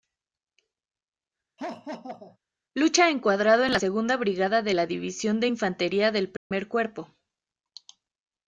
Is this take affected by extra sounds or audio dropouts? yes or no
yes